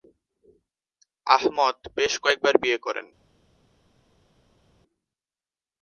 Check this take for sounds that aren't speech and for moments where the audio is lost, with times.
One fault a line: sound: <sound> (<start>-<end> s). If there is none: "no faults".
no faults